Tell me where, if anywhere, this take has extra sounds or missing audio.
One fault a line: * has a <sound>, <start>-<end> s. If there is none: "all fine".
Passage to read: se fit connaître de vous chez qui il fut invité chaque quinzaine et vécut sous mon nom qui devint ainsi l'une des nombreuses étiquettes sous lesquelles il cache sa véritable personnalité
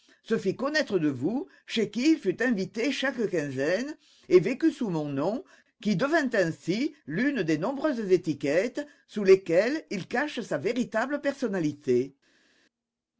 all fine